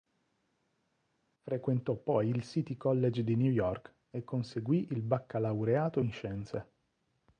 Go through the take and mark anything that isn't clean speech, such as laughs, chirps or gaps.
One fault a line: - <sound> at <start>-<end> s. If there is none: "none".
none